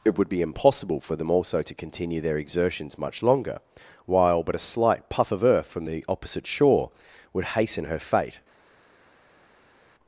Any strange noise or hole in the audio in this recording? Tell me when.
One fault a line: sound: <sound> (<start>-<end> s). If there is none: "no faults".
no faults